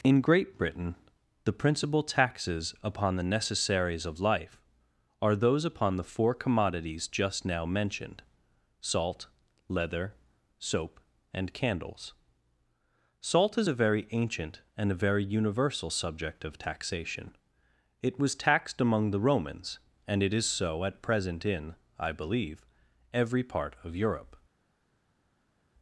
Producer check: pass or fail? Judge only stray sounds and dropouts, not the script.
pass